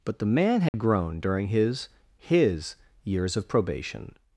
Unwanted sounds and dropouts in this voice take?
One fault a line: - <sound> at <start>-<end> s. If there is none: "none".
- dropout at 0.7-0.7 s